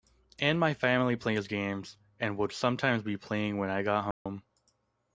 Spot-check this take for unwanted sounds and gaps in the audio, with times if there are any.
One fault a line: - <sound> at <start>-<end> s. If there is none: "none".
- dropout at 4.1-4.3 s